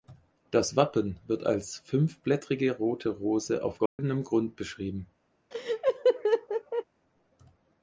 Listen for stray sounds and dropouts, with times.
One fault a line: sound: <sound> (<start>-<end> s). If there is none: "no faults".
sound: dropout (3.9-4.0 s)
sound: laugh (5.5-6.8 s)